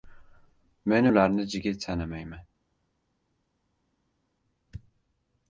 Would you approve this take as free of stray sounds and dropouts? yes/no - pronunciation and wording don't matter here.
yes